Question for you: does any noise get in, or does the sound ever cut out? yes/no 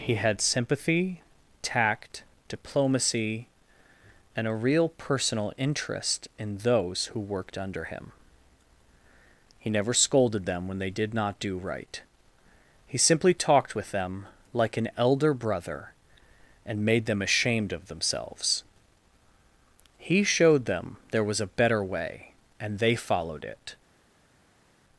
no